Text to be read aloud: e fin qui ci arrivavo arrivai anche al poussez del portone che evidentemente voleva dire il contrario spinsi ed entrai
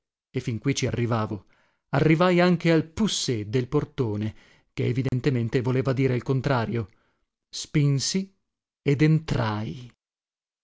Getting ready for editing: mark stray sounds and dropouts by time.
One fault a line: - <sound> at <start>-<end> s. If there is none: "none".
- dropout at 5.1-5.1 s